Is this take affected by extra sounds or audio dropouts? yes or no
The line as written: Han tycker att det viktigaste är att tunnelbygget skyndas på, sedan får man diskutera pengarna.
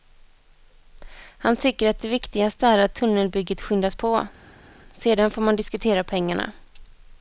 no